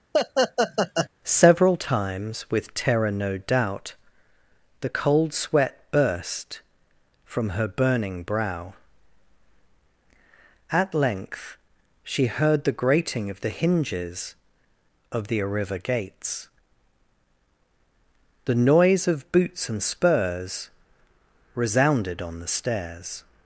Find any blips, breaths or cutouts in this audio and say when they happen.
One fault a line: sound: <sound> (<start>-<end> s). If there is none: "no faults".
sound: laugh (0.1-1.1 s)